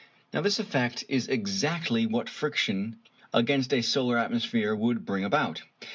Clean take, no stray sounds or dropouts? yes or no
yes